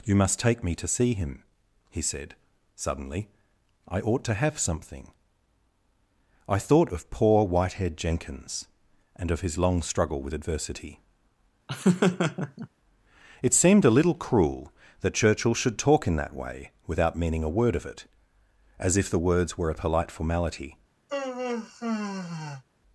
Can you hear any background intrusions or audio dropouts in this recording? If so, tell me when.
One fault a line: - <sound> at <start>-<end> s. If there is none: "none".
- laugh at 11.7-12.7 s
- sigh at 21.1-22.6 s